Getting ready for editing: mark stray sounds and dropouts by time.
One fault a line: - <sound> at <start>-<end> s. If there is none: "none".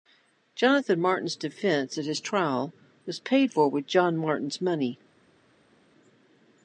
none